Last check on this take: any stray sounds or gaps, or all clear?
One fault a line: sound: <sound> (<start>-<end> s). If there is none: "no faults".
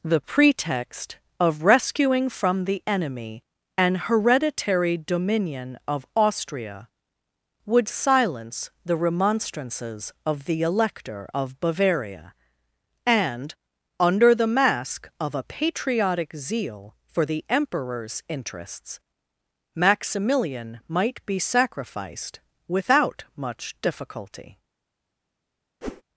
sound: whoosh (25.8-26.0 s)